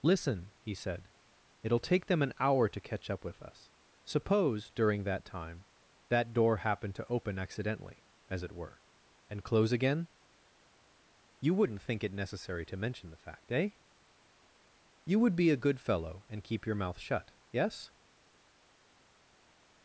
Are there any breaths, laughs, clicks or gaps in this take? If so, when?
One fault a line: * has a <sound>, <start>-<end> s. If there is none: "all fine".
all fine